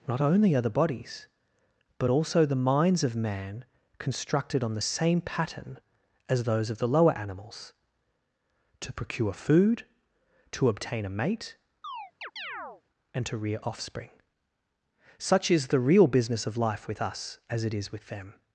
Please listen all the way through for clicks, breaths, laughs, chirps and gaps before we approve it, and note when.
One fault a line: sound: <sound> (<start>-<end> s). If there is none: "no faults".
sound: chirp (11.8-12.8 s)